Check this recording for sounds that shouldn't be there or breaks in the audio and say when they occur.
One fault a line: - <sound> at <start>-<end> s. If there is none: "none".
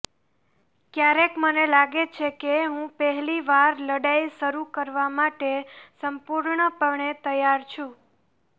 none